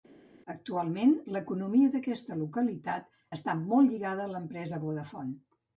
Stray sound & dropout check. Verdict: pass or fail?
pass